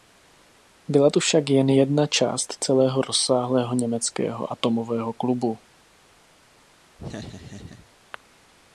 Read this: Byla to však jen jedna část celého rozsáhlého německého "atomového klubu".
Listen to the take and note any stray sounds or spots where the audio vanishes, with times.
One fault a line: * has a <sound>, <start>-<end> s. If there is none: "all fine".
* has a laugh, 7.0-7.9 s